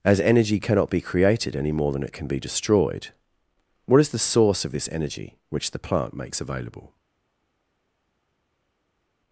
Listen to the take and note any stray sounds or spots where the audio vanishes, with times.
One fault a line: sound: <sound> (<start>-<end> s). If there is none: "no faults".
no faults